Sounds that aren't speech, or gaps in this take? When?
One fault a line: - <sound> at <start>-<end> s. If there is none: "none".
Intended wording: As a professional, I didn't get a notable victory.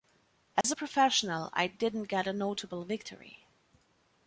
- dropout at 0.6-0.6 s